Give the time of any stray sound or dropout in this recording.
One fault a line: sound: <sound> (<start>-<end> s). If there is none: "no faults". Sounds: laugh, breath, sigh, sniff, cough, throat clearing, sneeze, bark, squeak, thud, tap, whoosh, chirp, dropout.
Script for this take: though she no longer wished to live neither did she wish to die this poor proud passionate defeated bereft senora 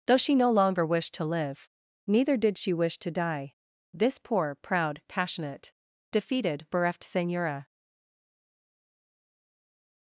no faults